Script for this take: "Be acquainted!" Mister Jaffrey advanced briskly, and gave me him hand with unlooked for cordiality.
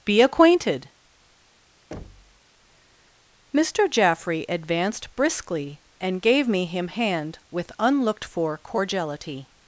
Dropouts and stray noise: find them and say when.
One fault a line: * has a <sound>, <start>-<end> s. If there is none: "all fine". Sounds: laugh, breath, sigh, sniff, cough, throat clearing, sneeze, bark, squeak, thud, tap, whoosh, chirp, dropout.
* has a thud, 1.9-2.4 s